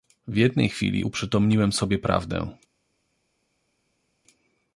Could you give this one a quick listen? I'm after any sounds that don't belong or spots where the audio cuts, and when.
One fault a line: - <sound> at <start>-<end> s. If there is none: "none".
none